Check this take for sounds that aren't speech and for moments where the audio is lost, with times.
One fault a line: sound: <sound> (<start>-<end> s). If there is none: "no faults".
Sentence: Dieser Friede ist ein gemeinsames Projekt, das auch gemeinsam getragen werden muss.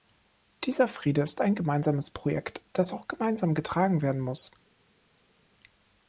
no faults